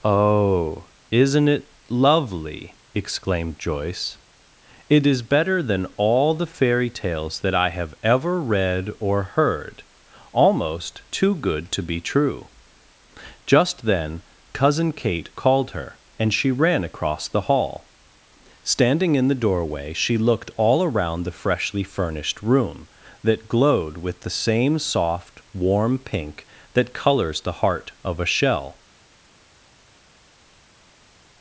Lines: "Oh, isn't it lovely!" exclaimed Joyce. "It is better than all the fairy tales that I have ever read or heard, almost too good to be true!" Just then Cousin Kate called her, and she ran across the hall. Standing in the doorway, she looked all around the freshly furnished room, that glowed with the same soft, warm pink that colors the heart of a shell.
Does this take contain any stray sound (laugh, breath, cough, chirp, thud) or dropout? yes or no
no